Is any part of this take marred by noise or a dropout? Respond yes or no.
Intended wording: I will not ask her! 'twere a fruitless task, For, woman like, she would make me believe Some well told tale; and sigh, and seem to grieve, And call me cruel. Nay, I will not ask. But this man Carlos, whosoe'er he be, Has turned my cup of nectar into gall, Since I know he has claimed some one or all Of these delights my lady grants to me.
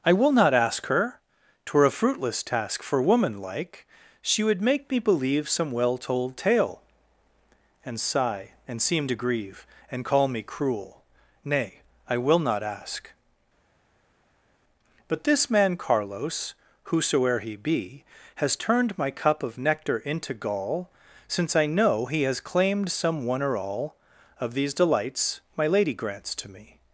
no